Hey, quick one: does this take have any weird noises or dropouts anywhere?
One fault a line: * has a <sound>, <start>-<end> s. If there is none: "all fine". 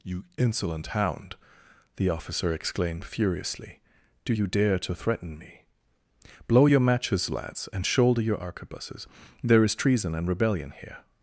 all fine